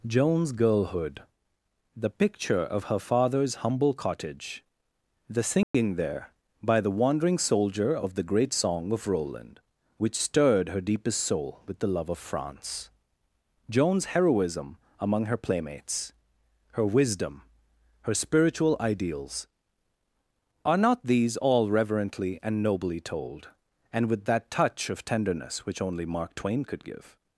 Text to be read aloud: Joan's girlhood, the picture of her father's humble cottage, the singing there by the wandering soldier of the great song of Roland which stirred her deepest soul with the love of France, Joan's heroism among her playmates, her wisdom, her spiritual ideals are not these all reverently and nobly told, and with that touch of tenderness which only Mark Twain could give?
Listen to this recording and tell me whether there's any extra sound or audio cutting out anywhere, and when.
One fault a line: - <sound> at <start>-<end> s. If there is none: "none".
- dropout at 5.6-5.7 s